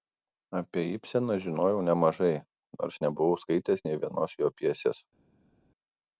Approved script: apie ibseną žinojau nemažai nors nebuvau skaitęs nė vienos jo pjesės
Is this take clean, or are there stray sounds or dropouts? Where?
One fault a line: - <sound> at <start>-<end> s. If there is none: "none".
none